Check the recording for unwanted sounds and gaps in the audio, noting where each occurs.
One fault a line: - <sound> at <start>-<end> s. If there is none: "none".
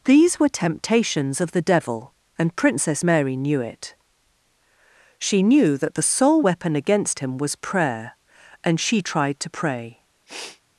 - sniff at 10.3-10.6 s